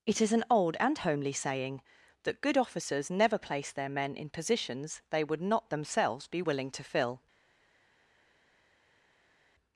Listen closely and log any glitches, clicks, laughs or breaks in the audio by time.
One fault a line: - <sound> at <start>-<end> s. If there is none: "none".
none